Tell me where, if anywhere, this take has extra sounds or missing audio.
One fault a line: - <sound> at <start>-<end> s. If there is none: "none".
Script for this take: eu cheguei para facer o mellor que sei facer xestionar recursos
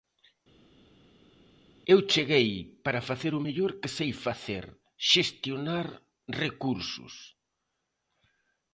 none